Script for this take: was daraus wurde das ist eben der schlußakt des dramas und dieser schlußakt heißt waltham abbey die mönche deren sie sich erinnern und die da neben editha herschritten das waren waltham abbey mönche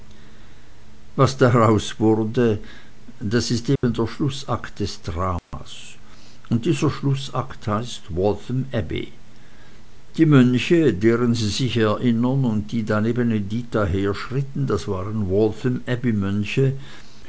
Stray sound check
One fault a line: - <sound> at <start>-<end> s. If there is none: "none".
- dropout at 3.8-3.8 s
- dropout at 5.4-5.5 s